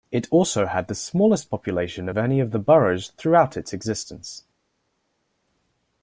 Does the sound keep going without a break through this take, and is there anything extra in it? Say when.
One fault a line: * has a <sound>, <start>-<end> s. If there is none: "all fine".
all fine